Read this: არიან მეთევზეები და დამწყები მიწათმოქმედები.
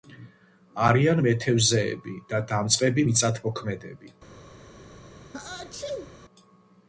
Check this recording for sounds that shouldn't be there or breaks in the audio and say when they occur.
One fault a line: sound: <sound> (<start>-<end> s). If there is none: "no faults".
sound: sneeze (5.3-6.2 s)